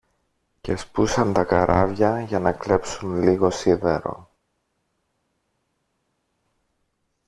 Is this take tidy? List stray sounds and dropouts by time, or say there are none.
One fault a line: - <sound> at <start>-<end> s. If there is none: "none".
none